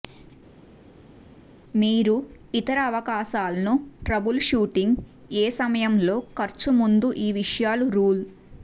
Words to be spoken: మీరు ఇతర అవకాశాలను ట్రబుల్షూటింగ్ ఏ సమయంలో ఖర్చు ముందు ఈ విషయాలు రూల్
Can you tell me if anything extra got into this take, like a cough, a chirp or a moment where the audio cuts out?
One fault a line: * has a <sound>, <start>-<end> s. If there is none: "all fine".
all fine